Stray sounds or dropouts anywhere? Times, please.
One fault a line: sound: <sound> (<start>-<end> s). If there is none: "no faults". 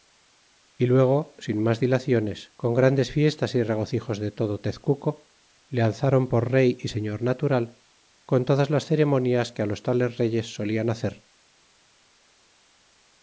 no faults